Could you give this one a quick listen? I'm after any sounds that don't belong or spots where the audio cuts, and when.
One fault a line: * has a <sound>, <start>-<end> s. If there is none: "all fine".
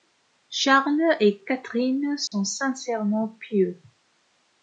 * has a dropout, 2.3-2.3 s